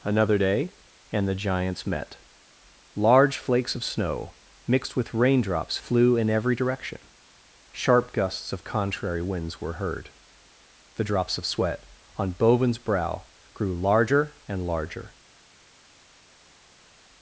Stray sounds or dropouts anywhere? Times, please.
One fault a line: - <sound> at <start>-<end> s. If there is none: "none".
none